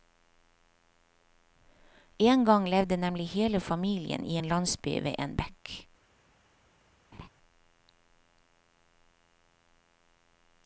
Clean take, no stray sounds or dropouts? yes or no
no